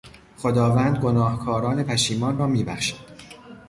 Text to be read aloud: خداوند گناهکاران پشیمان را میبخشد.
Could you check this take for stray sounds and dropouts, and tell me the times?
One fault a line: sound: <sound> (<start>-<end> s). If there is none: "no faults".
no faults